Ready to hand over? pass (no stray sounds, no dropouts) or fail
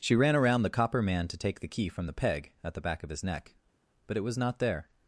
pass